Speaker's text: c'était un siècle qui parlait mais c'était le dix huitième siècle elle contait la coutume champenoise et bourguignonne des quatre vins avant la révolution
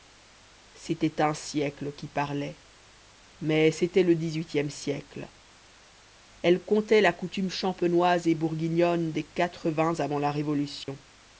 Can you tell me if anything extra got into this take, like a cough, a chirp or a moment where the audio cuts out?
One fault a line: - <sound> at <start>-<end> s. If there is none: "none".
- dropout at 10.8-10.9 s